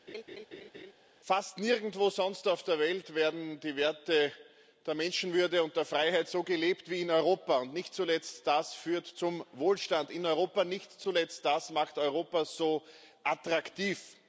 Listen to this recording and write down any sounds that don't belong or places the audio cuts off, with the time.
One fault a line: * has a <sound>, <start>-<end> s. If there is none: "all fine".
* has a laugh, 0.1-0.9 s